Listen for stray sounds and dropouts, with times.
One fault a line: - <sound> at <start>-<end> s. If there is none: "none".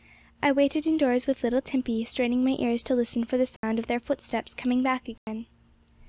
- dropout at 3.6-3.6 s
- dropout at 5.2-5.3 s